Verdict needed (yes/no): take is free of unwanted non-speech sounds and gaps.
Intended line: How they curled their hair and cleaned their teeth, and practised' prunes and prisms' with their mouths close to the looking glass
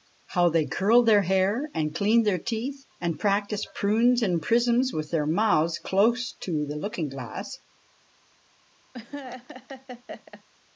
no